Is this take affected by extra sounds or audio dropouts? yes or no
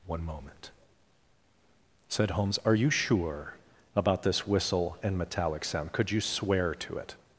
no